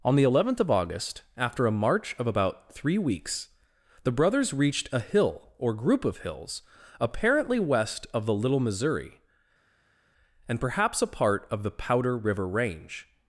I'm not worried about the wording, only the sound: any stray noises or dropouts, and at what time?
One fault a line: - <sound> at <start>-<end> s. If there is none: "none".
none